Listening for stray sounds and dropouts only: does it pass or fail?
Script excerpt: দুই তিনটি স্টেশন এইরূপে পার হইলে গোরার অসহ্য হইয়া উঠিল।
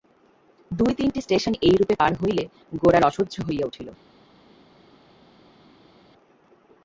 pass